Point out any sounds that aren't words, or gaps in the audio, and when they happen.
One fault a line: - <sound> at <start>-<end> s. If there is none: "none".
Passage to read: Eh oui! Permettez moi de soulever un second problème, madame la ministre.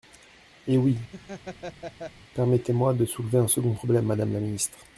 - laugh at 1.1-2.1 s